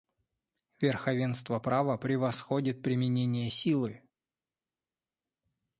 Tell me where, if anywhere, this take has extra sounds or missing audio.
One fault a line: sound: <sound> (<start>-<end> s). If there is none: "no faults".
no faults